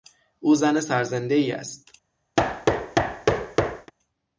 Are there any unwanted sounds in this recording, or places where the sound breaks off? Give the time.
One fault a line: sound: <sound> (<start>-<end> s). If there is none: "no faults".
sound: thud (2.4-3.9 s)